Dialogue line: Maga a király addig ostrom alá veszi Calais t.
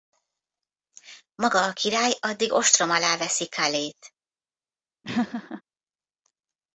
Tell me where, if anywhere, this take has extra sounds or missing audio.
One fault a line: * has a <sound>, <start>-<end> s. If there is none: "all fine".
* has a laugh, 5.0-5.6 s